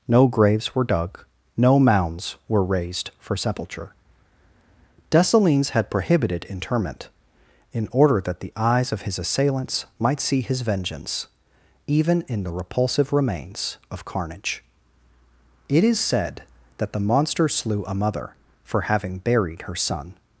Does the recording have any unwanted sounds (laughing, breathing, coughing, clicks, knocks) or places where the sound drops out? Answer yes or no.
no